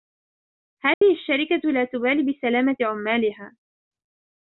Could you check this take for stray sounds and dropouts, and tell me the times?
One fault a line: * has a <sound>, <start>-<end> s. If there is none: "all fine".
* has a dropout, 0.9-1.0 s